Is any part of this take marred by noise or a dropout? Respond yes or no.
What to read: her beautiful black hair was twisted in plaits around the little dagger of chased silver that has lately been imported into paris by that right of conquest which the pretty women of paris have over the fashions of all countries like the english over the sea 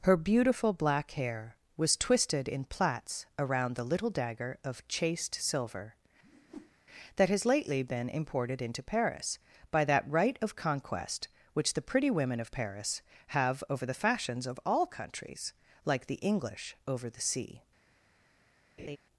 yes